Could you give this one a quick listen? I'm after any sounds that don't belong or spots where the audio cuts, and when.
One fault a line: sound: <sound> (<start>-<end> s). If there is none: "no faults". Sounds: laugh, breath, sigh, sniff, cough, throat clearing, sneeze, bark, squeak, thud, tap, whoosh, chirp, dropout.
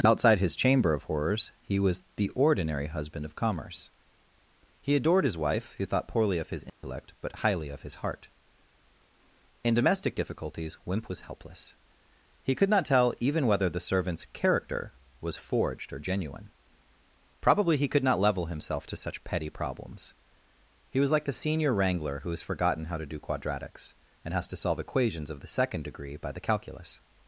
sound: dropout (6.7-6.8 s)